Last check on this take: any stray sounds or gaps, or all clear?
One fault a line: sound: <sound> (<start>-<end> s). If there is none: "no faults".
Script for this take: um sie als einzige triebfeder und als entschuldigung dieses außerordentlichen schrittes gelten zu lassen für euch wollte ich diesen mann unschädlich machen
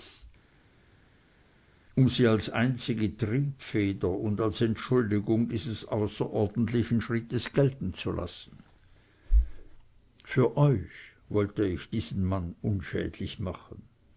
no faults